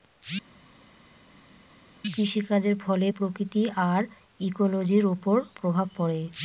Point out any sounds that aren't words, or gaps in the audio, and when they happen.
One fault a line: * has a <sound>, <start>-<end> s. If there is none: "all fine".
all fine